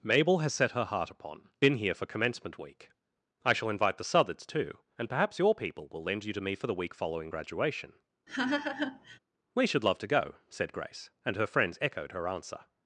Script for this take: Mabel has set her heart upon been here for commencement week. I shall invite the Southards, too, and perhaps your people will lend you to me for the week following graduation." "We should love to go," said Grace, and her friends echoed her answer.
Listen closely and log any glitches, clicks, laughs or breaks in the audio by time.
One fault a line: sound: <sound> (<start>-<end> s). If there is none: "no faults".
sound: laugh (8.3-9.2 s)